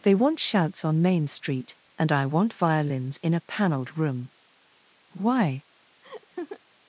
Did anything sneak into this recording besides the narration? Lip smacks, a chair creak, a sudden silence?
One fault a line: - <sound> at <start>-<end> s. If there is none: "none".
- laugh at 6.0-6.6 s